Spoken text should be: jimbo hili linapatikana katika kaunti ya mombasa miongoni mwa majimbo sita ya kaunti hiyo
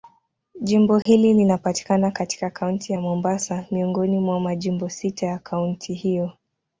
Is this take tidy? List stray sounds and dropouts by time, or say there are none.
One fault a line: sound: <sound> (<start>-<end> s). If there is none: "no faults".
sound: dropout (1.0-1.1 s)